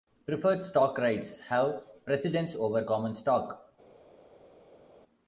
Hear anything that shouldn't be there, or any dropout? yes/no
no